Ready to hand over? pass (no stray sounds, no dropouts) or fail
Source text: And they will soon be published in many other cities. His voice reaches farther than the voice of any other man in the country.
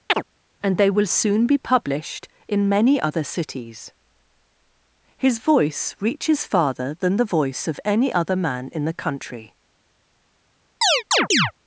fail